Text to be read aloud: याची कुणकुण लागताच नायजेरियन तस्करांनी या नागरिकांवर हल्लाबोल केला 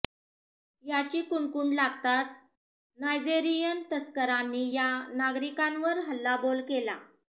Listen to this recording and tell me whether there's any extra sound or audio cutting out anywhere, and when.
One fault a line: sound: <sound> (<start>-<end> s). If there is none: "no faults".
no faults